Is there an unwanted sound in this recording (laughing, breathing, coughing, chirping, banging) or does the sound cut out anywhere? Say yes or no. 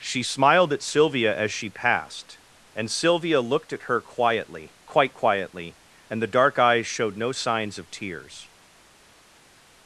no